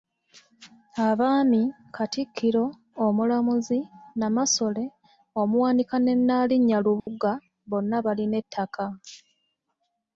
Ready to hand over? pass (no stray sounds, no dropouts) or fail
fail